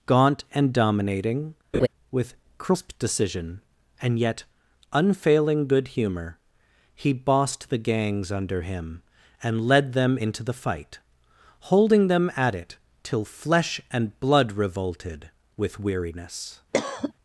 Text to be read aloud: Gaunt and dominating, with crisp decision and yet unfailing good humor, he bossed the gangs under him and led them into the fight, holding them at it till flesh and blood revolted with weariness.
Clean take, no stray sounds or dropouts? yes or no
no